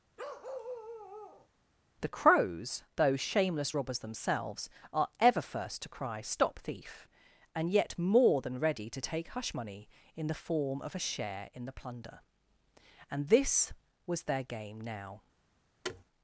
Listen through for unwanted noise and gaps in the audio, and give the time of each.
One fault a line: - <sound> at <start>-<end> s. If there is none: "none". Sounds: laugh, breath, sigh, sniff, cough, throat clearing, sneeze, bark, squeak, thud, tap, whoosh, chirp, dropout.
- bark at 0.2-1.5 s
- thud at 15.8-16.0 s